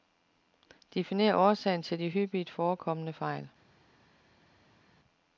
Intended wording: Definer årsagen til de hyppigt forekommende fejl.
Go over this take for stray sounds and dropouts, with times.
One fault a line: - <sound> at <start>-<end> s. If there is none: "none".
none